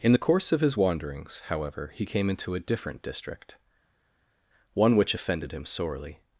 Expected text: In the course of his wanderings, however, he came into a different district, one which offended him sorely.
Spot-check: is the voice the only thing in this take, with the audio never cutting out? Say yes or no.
yes